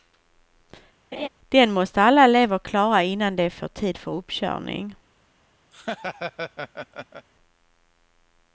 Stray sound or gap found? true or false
true